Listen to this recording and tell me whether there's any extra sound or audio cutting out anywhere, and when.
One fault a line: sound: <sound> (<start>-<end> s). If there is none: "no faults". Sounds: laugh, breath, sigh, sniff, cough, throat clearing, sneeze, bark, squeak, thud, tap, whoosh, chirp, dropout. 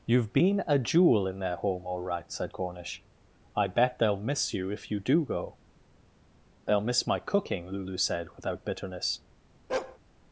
sound: bark (9.7-10.0 s)